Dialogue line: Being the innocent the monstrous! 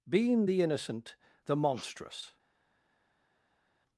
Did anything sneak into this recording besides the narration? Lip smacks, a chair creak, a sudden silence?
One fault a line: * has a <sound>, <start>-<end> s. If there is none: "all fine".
all fine